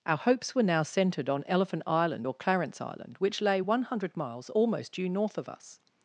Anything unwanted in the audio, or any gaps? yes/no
no